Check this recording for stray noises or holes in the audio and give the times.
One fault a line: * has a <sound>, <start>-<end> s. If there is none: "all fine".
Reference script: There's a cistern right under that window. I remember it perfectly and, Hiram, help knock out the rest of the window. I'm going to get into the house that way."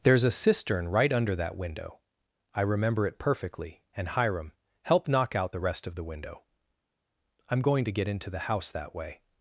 all fine